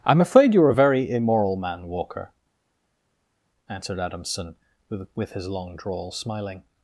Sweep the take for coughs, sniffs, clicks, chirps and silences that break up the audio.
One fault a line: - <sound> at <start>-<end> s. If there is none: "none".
none